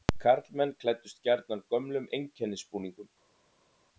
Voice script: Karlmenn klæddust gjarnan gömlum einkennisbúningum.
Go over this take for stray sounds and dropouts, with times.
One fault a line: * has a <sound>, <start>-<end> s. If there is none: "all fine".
all fine